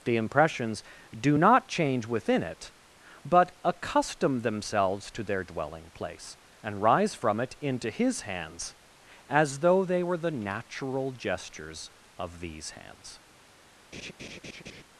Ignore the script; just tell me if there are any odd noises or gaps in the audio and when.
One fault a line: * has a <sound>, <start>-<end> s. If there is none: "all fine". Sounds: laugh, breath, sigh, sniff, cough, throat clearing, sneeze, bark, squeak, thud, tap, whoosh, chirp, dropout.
* has a laugh, 13.9-14.8 s